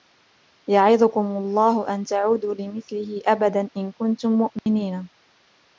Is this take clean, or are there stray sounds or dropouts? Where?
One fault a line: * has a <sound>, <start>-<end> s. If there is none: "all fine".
* has a dropout, 4.6-4.7 s